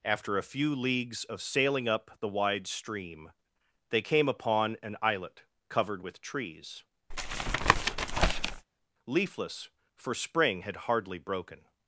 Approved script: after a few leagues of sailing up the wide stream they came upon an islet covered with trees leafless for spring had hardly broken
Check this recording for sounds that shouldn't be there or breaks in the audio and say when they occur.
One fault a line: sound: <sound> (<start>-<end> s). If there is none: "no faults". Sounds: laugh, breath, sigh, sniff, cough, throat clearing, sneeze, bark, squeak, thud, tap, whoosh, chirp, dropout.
sound: tap (7.1-8.7 s)